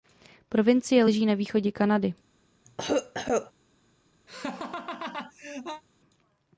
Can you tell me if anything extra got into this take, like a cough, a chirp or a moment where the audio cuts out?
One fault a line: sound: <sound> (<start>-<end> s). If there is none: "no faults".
sound: cough (2.6-3.5 s)
sound: laugh (4.3-5.8 s)